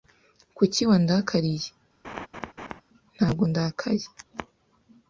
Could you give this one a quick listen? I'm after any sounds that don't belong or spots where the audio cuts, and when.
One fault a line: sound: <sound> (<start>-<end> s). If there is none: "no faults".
sound: laugh (2.0-2.8 s)